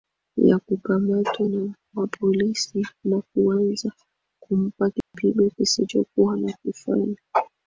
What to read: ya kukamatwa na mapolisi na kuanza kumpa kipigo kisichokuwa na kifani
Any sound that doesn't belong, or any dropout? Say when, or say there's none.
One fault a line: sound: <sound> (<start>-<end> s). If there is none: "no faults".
sound: dropout (5.0-5.1 s)